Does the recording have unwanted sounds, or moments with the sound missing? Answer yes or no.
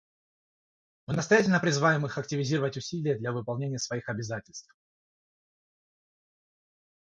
no